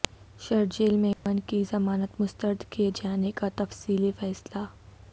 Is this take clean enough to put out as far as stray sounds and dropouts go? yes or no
no